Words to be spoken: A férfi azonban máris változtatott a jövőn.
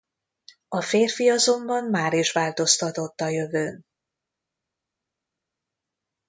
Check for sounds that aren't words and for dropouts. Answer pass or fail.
pass